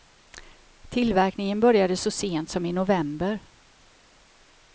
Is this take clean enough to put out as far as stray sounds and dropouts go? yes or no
yes